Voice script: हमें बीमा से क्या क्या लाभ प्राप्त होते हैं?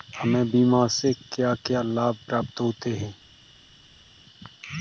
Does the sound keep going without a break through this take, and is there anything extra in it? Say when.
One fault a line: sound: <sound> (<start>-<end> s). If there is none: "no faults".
no faults